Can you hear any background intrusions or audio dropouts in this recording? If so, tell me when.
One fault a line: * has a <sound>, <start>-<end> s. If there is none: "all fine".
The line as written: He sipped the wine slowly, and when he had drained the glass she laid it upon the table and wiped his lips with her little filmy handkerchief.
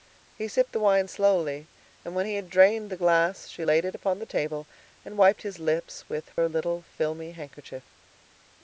* has a dropout, 6.3-6.4 s